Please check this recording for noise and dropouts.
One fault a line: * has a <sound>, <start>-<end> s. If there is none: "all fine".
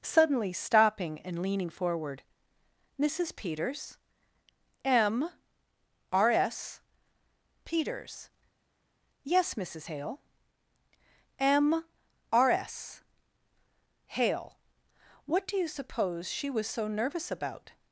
all fine